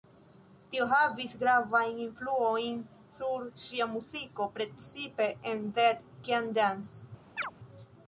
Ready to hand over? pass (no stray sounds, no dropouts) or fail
fail